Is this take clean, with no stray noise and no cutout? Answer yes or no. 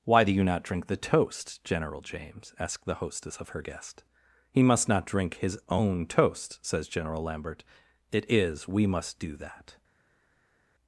yes